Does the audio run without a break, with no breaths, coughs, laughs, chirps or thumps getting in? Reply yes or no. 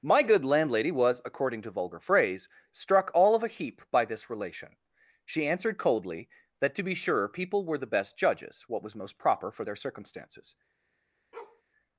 no